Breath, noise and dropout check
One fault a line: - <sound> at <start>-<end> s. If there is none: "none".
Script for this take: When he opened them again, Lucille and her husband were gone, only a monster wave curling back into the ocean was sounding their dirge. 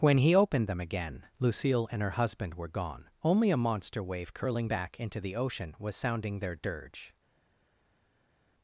none